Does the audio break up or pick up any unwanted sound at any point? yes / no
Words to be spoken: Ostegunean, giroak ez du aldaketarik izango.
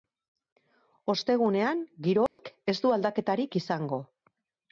yes